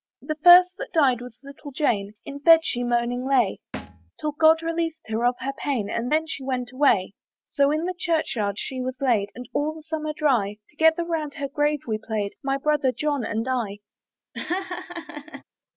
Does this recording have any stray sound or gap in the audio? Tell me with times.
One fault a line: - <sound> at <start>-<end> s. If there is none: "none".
- thud at 3.7-4.1 s
- laugh at 14.3-15.4 s